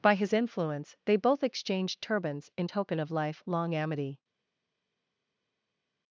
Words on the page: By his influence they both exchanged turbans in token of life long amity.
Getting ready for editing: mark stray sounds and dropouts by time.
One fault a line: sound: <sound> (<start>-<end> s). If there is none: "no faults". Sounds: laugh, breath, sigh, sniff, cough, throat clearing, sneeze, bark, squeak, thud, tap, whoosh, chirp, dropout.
no faults